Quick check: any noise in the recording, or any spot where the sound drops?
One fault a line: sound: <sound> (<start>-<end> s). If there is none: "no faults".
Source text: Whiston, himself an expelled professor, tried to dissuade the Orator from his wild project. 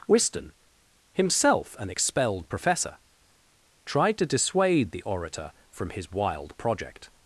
no faults